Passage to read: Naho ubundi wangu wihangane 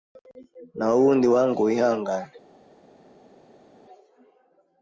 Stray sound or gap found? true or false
false